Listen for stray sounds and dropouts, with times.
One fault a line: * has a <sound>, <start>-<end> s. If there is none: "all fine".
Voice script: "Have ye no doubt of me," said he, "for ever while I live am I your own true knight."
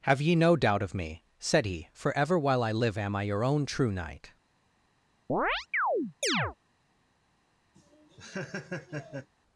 * has a chirp, 5.3-6.6 s
* has a laugh, 7.7-9.3 s